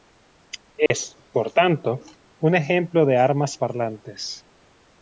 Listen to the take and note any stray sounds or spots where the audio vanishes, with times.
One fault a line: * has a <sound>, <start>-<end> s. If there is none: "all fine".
* has a dropout, 0.9-0.9 s